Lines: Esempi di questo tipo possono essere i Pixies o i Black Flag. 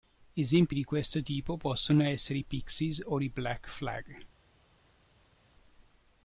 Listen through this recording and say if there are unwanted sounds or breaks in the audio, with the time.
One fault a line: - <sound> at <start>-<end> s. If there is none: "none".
none